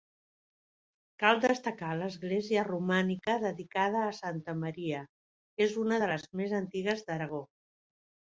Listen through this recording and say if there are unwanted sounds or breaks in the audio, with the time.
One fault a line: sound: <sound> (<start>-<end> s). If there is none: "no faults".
no faults